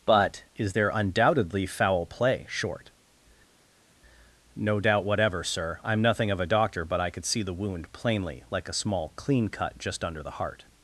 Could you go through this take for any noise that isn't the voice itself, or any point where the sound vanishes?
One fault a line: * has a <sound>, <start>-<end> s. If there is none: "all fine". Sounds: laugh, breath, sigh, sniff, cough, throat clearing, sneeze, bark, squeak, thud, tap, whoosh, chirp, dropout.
all fine